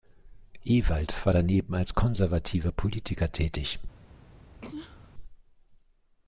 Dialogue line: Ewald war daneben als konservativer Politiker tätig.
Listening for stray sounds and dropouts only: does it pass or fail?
fail